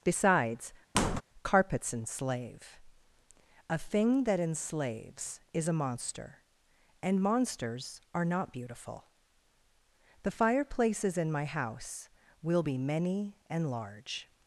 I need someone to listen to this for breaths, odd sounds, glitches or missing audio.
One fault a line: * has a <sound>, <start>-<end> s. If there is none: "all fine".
* has a squeak, 0.9-1.2 s